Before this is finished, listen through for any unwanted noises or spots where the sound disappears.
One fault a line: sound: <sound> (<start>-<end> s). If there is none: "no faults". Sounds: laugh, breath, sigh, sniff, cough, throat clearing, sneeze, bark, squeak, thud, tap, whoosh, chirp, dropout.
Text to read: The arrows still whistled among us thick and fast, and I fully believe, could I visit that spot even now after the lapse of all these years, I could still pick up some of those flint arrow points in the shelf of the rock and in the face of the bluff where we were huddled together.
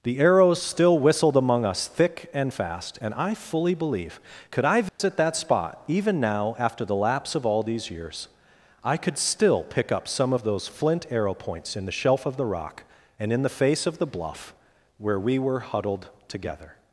sound: dropout (4.9-5.0 s)